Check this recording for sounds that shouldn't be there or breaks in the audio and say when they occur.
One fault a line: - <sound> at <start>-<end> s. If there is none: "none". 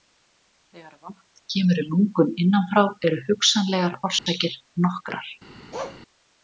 - dropout at 4.2-4.3 s
- bark at 5.7-6.0 s